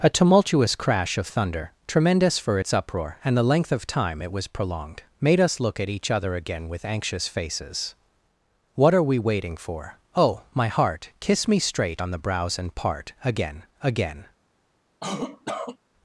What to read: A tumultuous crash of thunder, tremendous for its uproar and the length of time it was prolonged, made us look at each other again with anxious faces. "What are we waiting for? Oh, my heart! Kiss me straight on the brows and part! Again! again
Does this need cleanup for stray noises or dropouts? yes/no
yes